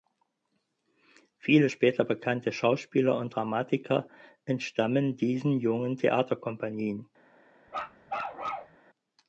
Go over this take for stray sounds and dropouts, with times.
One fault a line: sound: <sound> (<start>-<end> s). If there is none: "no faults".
sound: bark (7.7-8.8 s)